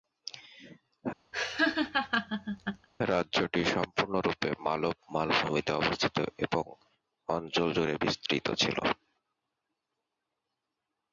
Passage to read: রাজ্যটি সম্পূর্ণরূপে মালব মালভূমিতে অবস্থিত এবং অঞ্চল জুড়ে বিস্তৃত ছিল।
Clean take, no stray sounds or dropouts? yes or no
no